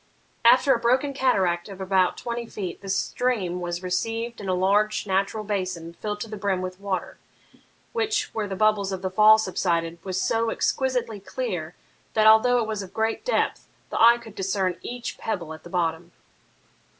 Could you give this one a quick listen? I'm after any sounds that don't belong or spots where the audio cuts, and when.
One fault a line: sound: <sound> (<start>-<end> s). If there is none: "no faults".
no faults